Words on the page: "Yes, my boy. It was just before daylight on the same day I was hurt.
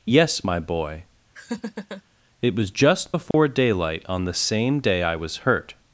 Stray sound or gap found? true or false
true